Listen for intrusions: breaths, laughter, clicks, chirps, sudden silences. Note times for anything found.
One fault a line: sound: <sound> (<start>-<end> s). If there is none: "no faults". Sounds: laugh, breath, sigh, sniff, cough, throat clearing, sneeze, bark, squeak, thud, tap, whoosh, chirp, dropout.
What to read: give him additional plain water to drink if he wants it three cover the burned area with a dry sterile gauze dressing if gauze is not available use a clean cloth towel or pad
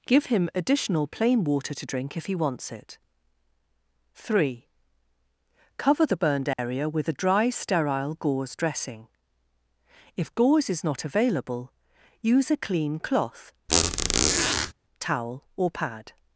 sound: dropout (6.5-6.6 s)
sound: squeak (13.7-14.7 s)